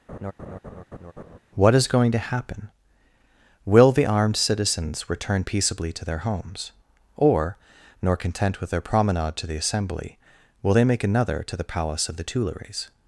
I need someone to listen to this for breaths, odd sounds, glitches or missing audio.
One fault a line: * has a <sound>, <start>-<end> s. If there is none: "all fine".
* has a laugh, 0.1-1.4 s